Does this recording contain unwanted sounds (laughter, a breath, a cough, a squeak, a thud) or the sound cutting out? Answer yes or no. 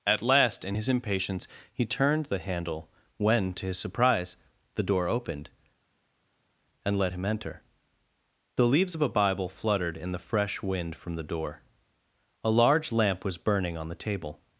no